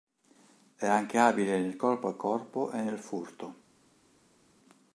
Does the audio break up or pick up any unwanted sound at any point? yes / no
no